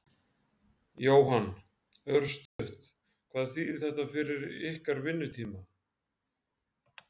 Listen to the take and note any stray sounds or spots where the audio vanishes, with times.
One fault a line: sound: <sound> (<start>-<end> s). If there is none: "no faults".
sound: dropout (2.5-2.6 s)